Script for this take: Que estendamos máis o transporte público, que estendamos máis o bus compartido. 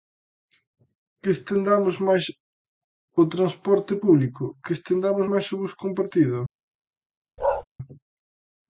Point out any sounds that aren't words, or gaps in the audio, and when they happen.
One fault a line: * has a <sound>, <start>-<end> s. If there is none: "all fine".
* has a bark, 7.4-7.6 s